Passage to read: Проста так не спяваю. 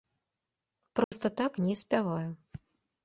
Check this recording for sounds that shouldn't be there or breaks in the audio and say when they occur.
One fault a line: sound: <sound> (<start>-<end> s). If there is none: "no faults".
sound: dropout (1.0-1.1 s)